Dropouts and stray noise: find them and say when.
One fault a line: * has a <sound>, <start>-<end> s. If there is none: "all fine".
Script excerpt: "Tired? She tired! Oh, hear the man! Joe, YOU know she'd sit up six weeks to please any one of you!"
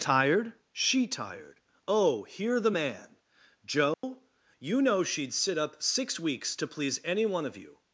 * has a dropout, 3.9-4.0 s